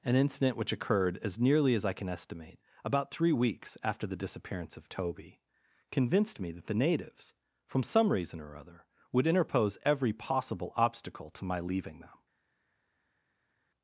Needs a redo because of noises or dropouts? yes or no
no